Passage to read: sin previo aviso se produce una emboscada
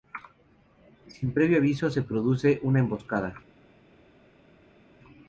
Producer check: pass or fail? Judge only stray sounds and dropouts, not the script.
pass